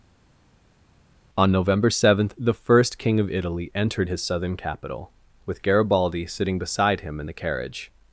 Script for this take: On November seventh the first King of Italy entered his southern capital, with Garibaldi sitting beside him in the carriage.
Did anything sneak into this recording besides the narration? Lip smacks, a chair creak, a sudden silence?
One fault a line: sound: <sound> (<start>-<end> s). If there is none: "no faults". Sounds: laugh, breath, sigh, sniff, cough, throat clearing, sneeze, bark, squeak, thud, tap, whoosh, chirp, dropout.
no faults